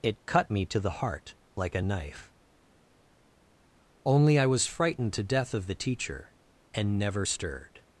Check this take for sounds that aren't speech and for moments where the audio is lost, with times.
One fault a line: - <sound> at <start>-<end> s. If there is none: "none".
none